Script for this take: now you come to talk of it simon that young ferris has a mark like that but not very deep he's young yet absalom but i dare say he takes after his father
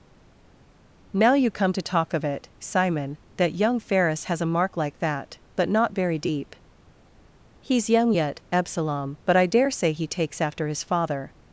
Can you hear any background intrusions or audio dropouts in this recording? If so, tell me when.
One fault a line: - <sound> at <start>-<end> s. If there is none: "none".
none